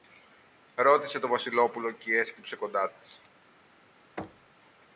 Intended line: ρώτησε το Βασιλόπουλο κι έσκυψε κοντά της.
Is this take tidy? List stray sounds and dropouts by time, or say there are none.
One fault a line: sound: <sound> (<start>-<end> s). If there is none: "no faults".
sound: thud (4.2-4.6 s)